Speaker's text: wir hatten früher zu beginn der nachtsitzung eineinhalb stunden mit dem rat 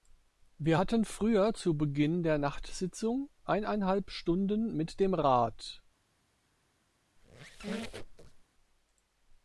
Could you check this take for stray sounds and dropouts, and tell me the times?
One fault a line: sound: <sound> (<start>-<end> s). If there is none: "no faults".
sound: squeak (7.2-8.5 s)